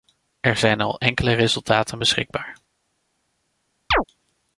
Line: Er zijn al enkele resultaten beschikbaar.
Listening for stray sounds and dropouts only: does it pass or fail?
fail